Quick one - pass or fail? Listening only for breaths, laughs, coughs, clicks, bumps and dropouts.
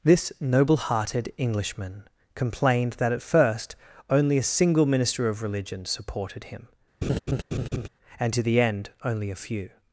fail